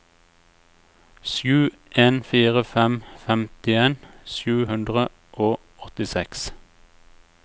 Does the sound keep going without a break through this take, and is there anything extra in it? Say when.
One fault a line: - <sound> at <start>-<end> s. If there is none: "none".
none